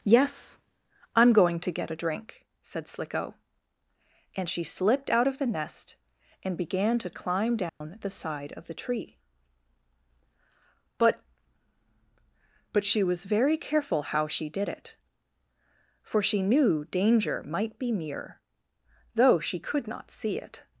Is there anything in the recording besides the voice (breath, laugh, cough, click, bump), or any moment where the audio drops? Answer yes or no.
yes